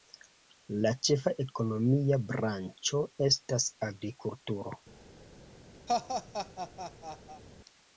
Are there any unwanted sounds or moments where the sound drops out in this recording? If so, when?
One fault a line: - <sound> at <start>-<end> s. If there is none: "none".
- laugh at 5.9-7.4 s